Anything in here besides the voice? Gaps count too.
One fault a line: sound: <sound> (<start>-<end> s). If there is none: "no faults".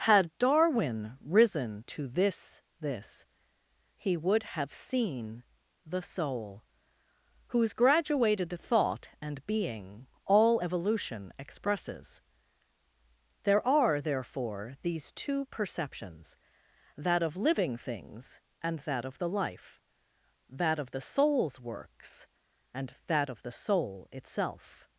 no faults